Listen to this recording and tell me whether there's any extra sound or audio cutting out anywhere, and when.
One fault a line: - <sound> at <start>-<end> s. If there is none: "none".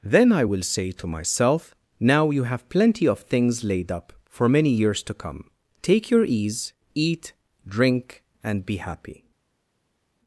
none